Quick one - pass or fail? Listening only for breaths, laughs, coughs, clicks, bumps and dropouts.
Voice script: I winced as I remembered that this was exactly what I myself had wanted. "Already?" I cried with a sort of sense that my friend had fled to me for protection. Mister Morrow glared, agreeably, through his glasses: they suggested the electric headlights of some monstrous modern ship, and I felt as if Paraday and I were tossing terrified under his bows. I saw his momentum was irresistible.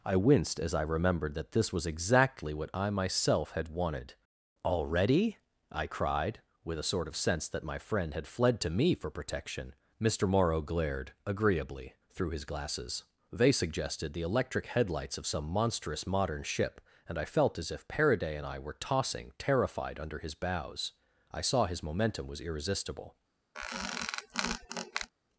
fail